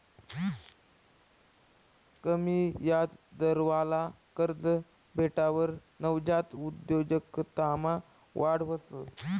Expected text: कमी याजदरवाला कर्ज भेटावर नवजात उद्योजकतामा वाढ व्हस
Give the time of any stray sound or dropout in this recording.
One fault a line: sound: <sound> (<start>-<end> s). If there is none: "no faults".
no faults